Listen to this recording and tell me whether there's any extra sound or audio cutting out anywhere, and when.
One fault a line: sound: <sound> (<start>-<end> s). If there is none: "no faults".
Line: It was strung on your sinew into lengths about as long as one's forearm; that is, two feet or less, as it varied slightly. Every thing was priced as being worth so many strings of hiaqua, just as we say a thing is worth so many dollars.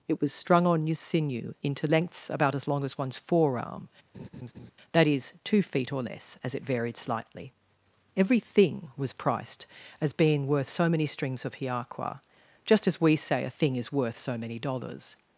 sound: laugh (4.1-4.7 s)